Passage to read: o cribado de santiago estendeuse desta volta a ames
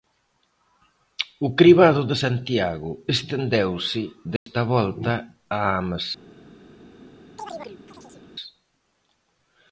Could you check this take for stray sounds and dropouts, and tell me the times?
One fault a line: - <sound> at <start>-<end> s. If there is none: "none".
- dropout at 4.4-4.5 s
- chirp at 7.4-8.3 s